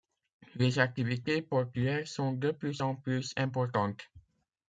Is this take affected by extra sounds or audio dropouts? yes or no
no